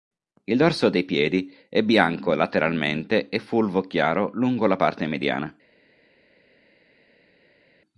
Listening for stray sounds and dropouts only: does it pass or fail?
pass